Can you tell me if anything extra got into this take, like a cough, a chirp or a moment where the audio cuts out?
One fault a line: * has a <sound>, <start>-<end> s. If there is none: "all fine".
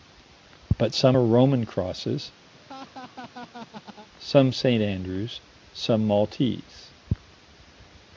* has a laugh, 2.5-4.1 s